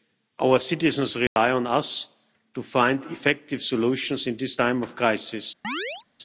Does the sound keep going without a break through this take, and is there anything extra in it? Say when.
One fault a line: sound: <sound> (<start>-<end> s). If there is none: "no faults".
sound: dropout (1.3-1.4 s)
sound: chirp (5.6-6.1 s)